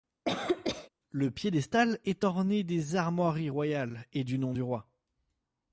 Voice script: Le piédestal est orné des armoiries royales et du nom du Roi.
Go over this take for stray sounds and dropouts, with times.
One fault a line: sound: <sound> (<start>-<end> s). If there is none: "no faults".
sound: cough (0.3-0.9 s)